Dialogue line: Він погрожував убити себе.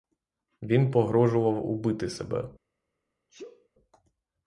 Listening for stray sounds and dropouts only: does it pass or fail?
fail